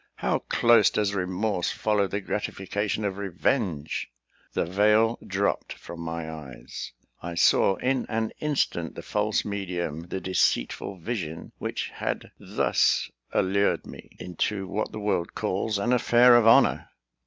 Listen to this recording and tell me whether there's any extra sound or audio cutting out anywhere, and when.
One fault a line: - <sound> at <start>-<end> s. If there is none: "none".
none